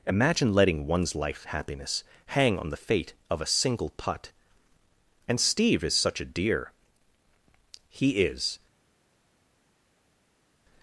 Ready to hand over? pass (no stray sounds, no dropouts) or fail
pass